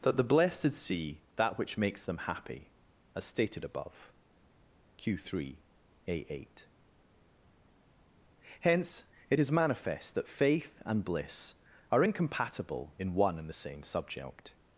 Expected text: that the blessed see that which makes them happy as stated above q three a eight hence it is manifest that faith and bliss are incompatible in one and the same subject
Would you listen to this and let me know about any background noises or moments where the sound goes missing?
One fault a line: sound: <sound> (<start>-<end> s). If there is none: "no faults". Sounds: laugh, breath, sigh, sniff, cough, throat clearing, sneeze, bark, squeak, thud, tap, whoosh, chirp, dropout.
no faults